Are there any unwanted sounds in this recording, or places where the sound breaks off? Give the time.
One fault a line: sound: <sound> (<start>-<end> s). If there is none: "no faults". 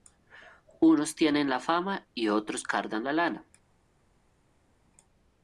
no faults